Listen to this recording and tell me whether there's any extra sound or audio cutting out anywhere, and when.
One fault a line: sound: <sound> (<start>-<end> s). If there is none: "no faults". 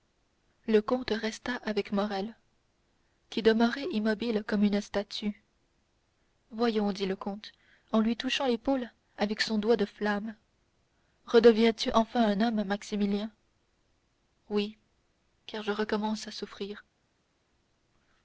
no faults